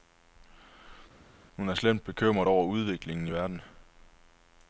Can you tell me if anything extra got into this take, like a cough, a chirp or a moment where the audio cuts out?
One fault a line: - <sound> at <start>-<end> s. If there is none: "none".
none